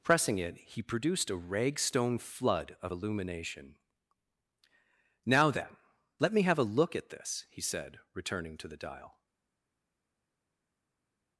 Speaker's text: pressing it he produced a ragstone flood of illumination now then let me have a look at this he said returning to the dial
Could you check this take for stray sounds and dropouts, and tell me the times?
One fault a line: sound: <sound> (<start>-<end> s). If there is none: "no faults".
no faults